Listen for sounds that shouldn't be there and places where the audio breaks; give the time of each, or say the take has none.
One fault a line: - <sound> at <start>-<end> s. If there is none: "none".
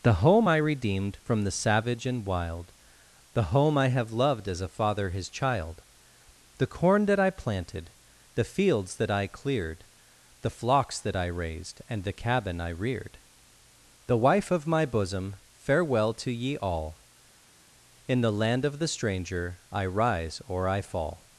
none